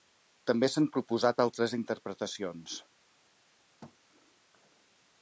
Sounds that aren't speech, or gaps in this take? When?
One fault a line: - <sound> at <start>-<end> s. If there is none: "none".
- thud at 3.8-4.0 s